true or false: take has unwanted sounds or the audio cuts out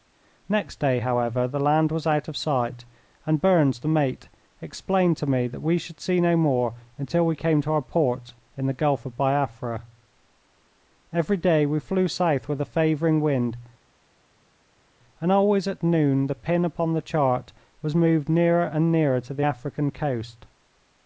false